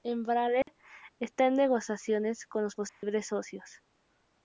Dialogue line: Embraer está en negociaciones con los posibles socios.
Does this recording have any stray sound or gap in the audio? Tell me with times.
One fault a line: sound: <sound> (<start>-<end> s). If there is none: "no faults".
sound: dropout (0.6-0.7 s)
sound: dropout (2.9-3.0 s)